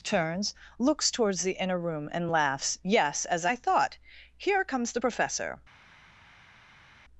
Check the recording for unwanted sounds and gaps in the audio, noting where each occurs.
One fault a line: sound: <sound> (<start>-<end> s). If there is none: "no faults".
no faults